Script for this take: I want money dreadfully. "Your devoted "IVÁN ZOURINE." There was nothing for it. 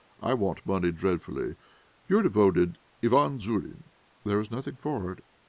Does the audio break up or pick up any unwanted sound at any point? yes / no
no